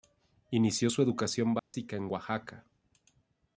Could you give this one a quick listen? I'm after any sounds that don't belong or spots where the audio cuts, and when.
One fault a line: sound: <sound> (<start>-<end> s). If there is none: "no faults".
sound: dropout (1.6-1.7 s)